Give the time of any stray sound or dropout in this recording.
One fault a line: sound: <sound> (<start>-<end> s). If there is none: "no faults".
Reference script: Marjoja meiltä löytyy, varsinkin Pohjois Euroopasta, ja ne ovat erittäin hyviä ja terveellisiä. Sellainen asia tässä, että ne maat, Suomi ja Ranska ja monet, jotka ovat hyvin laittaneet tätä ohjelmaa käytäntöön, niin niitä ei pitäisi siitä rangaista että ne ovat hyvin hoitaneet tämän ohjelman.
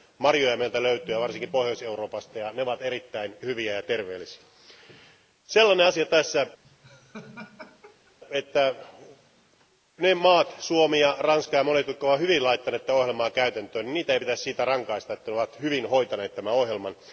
sound: laugh (6.6-8.2 s)